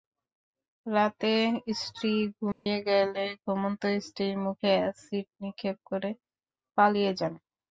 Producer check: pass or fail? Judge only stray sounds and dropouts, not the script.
fail